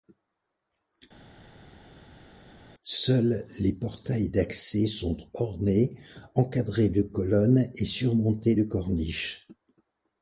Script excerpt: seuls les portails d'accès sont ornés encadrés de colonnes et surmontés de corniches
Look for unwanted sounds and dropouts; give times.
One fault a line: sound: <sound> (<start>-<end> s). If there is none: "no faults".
no faults